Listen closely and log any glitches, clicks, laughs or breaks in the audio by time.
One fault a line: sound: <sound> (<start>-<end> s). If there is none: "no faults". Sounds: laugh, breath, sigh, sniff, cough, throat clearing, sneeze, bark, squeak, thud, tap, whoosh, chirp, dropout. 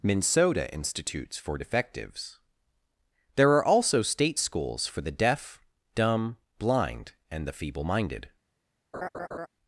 sound: laugh (8.9-9.5 s)